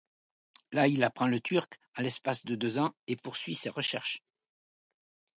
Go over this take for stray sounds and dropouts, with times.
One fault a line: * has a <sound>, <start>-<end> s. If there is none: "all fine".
all fine